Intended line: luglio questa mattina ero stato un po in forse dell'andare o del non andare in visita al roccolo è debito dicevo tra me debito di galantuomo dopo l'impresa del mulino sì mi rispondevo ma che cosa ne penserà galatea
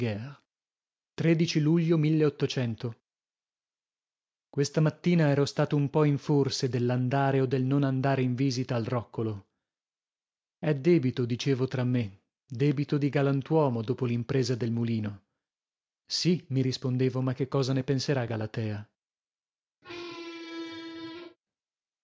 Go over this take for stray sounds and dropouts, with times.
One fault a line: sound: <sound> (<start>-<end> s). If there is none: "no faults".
sound: squeak (19.8-21.4 s)